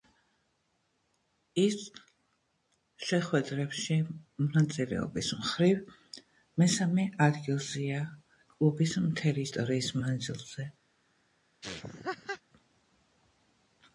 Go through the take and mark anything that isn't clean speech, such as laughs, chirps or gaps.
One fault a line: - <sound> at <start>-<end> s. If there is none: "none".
- laugh at 11.6-12.4 s